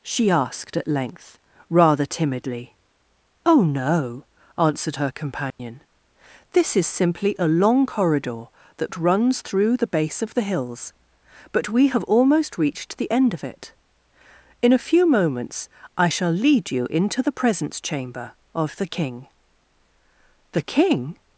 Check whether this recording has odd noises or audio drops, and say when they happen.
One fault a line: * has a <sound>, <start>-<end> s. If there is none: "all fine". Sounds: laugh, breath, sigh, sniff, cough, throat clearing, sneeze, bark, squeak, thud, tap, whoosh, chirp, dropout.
* has a dropout, 5.5-5.6 s